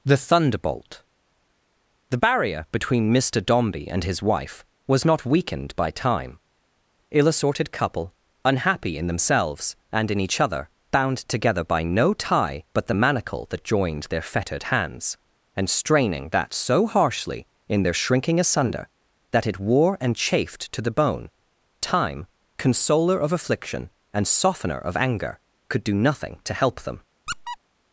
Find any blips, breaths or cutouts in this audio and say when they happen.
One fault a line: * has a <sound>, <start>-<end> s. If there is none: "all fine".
* has a squeak, 27.3-27.6 s